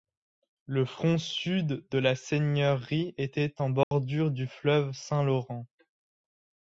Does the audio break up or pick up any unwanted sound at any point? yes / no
yes